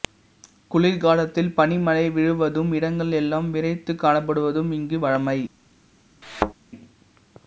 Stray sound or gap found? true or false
true